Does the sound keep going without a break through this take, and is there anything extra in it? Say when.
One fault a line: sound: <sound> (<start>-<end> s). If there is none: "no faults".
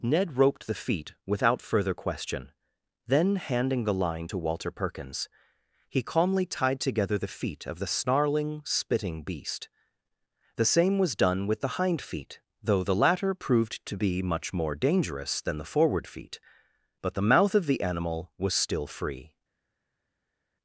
no faults